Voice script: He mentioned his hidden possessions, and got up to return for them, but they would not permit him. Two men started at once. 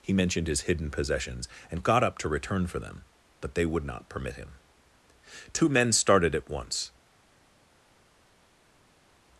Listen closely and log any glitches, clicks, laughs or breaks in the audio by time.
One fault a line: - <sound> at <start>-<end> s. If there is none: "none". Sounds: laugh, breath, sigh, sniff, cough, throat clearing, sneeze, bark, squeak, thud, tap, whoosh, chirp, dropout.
none